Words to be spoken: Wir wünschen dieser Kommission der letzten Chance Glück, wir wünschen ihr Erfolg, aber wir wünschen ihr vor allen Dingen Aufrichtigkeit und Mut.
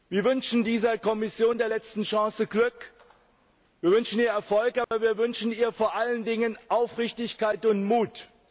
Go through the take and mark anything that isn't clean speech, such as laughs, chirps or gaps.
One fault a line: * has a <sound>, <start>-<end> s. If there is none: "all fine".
* has a dropout, 4.8-4.9 s